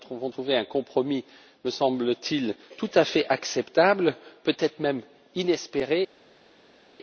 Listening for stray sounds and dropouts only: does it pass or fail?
pass